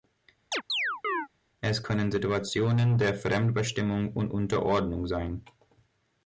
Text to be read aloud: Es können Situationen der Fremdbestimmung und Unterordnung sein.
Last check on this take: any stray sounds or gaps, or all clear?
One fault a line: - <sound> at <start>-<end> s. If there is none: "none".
- chirp at 0.5-1.3 s